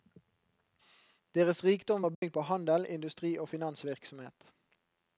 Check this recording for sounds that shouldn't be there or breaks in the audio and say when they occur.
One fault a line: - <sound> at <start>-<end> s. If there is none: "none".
- dropout at 2.1-2.2 s